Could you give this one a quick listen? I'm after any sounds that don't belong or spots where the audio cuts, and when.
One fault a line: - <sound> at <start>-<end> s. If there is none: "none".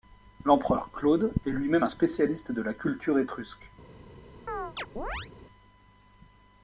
- chirp at 4.5-5.3 s